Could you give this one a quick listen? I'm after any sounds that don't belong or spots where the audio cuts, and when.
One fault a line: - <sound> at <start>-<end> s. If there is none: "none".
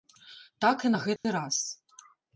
- dropout at 1.2-1.2 s